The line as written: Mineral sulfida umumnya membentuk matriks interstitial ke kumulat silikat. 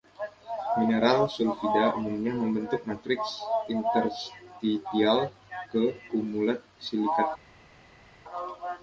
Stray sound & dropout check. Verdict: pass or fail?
pass